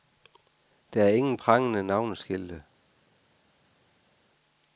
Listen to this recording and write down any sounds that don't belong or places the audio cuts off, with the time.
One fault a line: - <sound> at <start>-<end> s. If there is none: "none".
none